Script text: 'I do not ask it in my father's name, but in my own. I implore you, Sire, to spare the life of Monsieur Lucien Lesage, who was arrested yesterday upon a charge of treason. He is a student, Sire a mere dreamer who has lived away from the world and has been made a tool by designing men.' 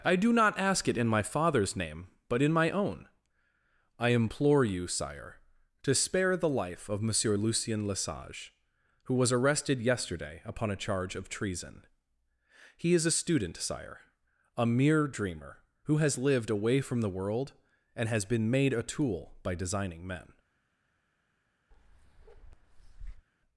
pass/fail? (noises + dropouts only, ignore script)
fail